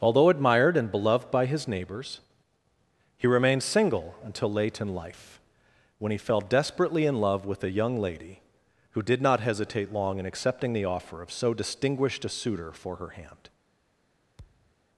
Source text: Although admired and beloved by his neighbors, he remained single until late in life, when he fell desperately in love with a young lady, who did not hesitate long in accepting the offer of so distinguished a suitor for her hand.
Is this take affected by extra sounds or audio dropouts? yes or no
yes